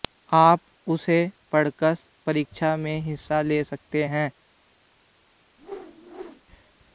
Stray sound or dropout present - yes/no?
yes